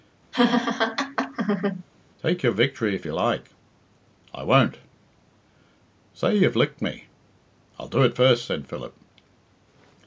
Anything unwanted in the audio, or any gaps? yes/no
yes